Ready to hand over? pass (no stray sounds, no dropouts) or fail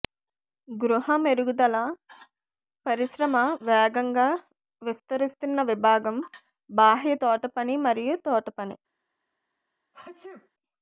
fail